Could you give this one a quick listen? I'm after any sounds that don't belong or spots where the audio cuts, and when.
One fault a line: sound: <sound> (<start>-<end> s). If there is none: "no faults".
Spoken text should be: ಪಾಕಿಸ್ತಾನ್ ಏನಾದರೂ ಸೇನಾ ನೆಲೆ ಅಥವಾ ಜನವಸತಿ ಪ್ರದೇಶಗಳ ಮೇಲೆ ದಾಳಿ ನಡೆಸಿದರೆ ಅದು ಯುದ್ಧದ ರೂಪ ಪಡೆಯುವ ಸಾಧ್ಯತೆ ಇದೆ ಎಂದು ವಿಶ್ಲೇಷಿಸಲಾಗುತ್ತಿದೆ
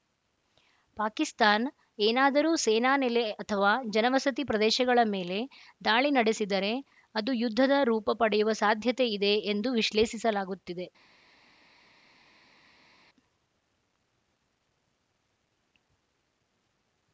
no faults